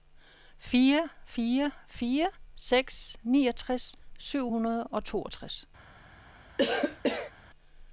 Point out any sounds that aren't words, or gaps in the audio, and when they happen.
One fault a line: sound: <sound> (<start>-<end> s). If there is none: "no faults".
sound: cough (6.6-7.3 s)